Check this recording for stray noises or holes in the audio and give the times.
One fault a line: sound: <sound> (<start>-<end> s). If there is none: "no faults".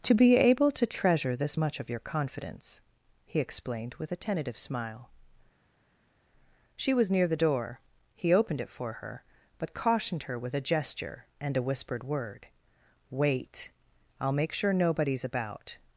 no faults